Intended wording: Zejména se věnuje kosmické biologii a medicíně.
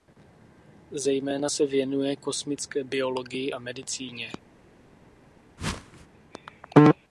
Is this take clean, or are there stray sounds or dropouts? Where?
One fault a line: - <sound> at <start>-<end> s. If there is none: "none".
- whoosh at 5.6-6.1 s